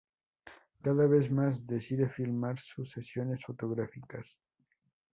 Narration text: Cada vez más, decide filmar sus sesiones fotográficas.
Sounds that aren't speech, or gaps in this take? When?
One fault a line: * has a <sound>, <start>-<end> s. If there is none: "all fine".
all fine